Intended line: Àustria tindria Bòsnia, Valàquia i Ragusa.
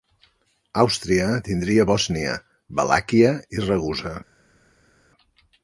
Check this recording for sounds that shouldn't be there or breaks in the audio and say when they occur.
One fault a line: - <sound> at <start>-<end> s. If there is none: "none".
none